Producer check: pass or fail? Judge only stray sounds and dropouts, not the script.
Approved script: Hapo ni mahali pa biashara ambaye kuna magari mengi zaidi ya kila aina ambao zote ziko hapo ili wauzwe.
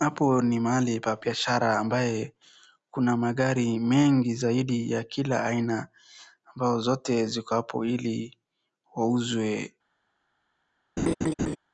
fail